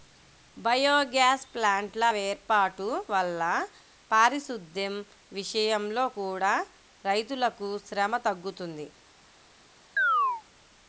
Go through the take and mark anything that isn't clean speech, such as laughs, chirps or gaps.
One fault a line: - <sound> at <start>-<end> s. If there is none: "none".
- chirp at 10.0-10.4 s